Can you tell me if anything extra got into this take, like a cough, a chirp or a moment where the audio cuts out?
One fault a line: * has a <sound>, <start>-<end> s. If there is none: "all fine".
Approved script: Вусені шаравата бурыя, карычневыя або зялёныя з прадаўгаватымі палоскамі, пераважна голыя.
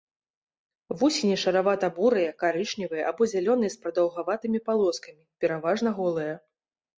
all fine